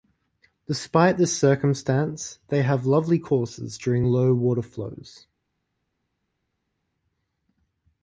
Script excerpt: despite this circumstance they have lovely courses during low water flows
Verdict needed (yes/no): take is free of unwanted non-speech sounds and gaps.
yes